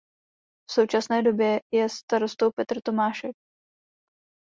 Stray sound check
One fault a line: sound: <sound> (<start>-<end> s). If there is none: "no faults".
no faults